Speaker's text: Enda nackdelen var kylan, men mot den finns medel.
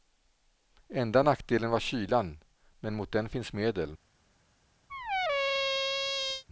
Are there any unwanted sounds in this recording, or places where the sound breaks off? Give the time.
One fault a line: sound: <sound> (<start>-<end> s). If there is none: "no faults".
sound: squeak (4.9-6.4 s)